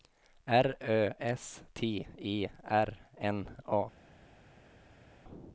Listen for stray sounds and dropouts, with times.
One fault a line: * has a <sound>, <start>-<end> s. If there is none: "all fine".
all fine